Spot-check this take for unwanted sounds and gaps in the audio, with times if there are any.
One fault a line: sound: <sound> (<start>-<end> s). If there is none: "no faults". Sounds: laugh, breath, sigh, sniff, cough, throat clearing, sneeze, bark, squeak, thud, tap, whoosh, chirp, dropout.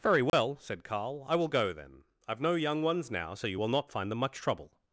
sound: dropout (0.3-0.3 s)